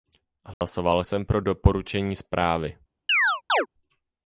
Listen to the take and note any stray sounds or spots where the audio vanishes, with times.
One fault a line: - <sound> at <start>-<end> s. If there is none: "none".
- dropout at 0.5-0.6 s
- chirp at 3.1-3.7 s